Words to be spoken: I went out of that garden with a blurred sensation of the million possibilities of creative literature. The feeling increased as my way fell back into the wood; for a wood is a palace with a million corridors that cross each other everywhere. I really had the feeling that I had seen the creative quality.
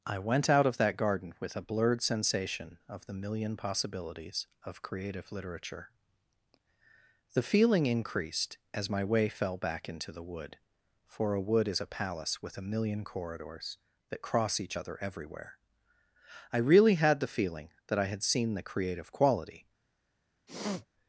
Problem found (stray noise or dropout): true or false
true